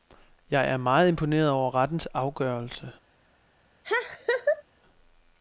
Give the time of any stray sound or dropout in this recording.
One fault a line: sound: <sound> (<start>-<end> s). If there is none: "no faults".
sound: laugh (3.8-4.6 s)